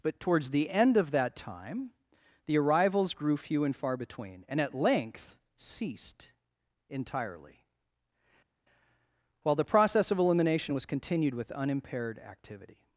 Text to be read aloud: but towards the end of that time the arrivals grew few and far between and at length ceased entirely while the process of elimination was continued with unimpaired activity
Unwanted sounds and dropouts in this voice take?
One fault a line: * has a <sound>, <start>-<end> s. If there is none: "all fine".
all fine